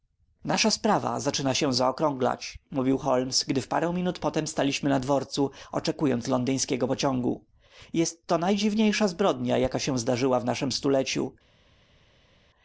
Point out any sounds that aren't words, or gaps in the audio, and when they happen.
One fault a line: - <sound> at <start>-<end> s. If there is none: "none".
none